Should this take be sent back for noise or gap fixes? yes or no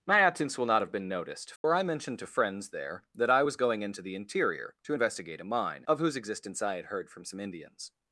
yes